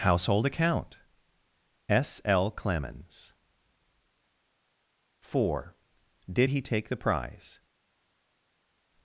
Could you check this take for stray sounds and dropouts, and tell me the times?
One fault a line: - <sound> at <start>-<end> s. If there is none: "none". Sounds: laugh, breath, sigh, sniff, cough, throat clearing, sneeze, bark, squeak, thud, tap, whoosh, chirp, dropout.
none